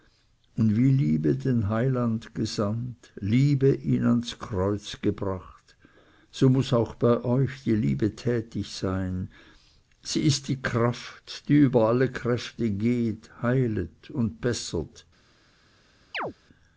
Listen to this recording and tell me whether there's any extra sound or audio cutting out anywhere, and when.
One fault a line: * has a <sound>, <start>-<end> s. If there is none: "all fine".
* has a chirp, 16.1-16.3 s